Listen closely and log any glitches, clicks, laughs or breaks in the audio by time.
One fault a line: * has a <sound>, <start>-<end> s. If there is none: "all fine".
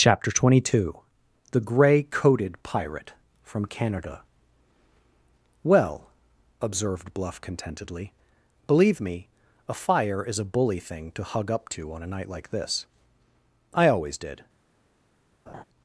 * has a laugh, 15.5-15.6 s